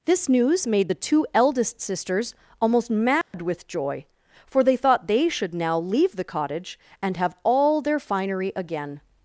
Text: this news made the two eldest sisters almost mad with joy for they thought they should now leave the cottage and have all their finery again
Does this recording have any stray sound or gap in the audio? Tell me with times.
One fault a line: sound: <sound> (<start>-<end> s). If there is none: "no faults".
sound: dropout (3.2-3.3 s)